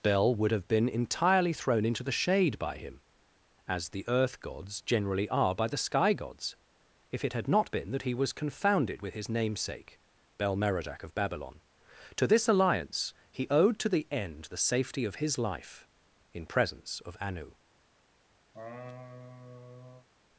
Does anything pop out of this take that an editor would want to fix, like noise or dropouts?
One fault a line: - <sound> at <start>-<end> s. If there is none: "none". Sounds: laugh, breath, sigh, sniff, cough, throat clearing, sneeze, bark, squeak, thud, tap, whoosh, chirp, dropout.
- laugh at 18.5-20.1 s